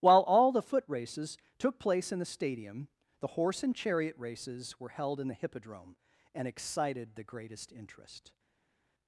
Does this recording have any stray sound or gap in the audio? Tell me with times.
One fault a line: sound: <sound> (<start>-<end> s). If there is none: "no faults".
no faults